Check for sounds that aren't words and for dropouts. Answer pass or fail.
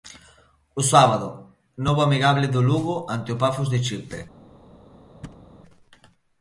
fail